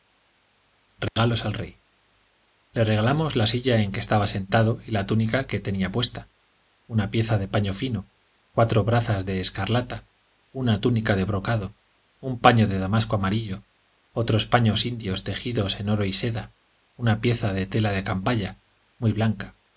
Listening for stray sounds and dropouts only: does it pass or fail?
fail